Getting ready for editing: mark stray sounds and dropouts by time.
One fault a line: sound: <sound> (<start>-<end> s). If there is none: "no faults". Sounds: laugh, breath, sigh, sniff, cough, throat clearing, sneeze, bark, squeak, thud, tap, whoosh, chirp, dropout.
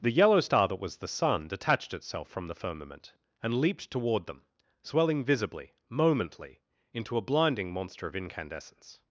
no faults